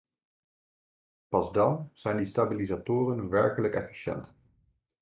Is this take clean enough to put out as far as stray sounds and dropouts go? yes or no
yes